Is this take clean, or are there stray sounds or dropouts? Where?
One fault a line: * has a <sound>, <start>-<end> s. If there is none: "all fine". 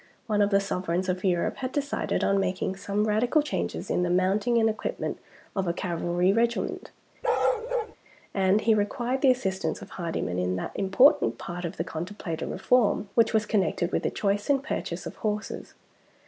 * has a bark, 7.2-8.0 s